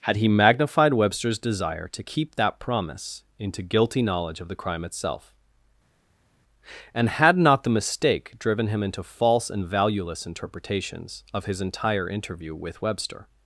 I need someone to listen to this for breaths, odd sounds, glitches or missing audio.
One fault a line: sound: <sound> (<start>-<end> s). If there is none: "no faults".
no faults